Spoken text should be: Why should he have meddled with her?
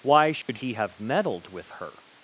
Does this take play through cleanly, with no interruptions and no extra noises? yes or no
no